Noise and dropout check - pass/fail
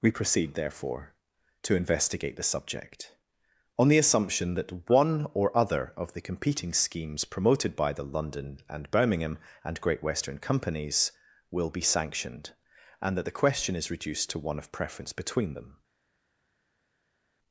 pass